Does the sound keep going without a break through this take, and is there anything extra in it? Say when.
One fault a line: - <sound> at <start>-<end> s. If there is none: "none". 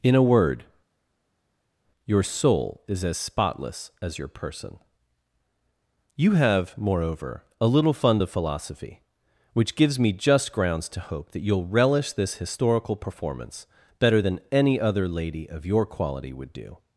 none